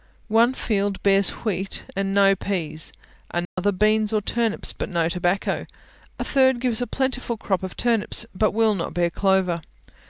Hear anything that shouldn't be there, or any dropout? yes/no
yes